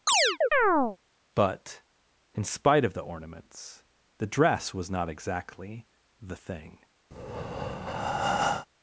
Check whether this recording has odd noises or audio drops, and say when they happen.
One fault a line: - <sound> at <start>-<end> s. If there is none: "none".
- chirp at 0.1-1.0 s
- breath at 7.1-8.7 s